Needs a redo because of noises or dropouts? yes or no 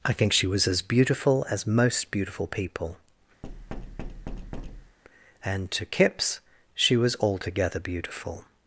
yes